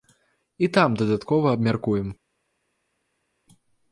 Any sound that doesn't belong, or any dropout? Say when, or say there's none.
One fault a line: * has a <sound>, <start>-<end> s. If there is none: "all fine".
all fine